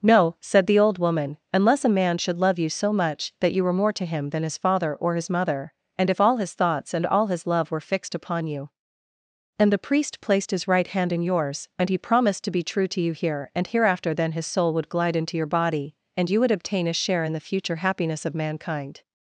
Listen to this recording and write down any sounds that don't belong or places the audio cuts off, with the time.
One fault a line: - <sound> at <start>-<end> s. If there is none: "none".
none